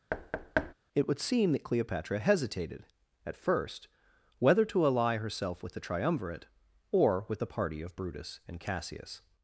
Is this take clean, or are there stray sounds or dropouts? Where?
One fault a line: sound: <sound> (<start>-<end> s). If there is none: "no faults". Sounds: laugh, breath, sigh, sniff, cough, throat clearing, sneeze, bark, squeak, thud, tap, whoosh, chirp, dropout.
sound: thud (0.1-0.7 s)